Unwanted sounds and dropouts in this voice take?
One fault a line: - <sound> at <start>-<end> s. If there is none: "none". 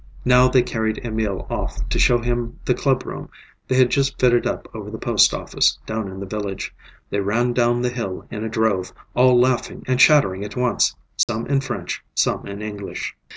- dropout at 11.2-11.3 s